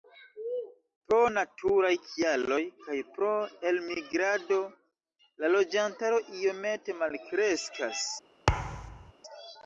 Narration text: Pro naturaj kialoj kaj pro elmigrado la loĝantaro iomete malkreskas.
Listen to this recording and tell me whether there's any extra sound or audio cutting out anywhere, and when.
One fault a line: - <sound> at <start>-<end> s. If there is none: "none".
- thud at 8.5-9.1 s